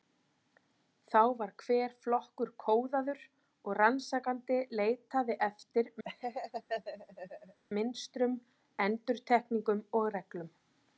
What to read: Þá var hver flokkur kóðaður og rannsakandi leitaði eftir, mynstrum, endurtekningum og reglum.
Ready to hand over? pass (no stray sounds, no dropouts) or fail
fail